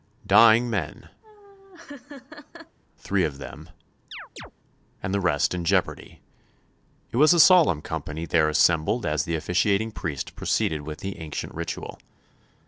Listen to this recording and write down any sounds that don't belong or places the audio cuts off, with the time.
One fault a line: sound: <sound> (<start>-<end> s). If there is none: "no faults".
sound: laugh (1.2-2.8 s)
sound: chirp (4.1-4.5 s)